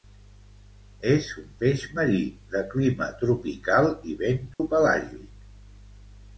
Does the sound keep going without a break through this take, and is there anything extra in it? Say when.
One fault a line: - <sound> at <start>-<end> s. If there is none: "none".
- dropout at 4.5-4.6 s